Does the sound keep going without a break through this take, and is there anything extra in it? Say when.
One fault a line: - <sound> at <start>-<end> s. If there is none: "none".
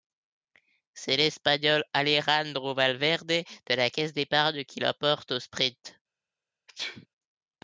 - sneeze at 6.7-7.1 s